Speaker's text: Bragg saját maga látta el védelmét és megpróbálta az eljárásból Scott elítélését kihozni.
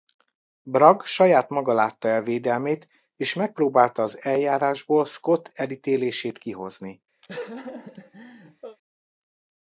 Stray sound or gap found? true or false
true